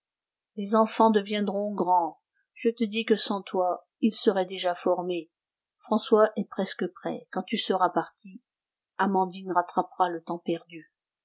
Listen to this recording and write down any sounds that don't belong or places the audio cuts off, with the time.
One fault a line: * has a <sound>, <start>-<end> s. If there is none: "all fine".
all fine